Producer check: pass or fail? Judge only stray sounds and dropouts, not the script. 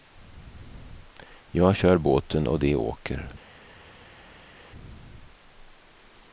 pass